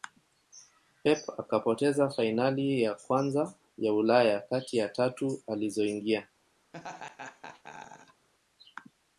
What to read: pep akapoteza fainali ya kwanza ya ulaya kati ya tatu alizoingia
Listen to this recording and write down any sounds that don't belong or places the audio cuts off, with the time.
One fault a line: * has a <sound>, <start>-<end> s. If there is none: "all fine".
* has a laugh, 6.7-8.3 s